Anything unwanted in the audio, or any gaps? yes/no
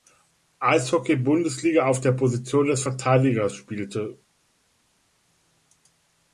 no